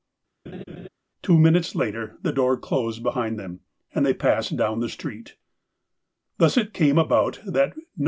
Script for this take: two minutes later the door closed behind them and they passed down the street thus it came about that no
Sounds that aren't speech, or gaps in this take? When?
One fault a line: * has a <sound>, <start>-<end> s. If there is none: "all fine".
* has a laugh, 0.5-0.9 s